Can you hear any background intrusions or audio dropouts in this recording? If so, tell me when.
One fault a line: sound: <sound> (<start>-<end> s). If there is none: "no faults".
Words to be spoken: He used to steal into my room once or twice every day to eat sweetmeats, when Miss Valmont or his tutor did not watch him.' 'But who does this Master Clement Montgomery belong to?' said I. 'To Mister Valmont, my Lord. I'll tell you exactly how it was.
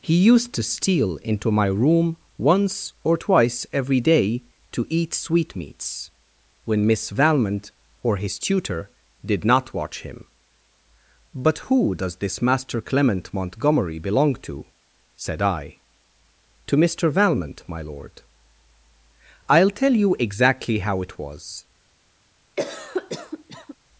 sound: cough (22.6-23.8 s)